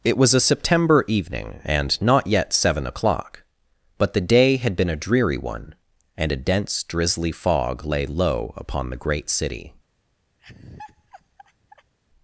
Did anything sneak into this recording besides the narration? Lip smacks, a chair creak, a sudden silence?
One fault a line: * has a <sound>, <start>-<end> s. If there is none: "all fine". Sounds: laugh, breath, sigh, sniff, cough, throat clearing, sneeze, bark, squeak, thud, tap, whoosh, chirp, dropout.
* has a laugh, 10.4-11.9 s